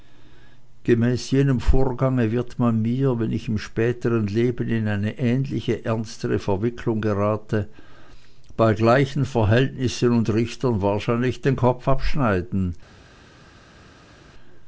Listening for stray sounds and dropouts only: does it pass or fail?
pass